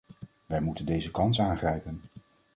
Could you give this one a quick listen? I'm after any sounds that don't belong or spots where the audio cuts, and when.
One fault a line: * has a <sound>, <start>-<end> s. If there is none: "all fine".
all fine